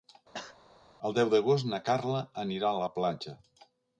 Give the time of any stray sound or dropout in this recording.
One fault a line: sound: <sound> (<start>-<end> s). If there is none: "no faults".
sound: cough (0.3-0.6 s)